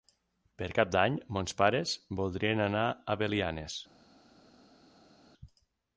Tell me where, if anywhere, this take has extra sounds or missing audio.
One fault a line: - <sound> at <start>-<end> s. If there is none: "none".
none